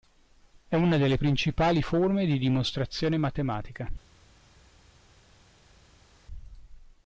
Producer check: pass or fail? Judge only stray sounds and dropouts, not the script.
pass